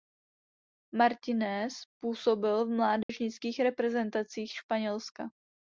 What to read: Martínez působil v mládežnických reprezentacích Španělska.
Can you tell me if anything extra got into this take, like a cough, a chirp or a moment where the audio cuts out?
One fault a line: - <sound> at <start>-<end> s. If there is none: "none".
- dropout at 3.0-3.1 s